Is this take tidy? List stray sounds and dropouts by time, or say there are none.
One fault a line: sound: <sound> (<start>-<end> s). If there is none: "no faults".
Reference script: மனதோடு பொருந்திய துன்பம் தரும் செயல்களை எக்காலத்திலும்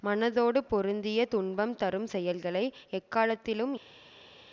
no faults